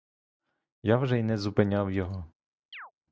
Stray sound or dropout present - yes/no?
yes